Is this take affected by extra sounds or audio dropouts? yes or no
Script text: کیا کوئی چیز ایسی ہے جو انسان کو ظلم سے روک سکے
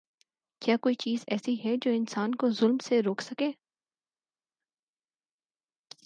no